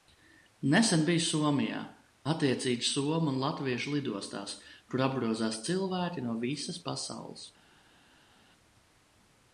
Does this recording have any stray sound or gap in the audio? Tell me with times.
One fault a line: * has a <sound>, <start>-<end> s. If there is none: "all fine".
all fine